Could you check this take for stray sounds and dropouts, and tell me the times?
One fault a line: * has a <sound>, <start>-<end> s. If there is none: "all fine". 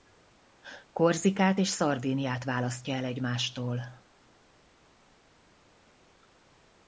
all fine